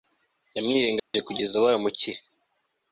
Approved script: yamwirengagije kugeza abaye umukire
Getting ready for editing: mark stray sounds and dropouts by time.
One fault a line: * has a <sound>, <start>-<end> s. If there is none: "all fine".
* has a dropout, 1.0-1.1 s